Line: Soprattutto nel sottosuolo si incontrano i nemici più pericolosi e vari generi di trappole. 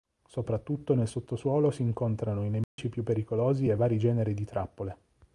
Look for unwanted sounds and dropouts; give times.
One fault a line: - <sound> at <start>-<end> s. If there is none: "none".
- dropout at 2.6-2.8 s